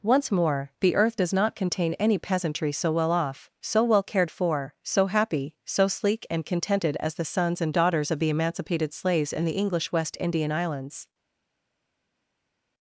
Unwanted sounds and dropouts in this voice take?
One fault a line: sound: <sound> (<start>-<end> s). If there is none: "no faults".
no faults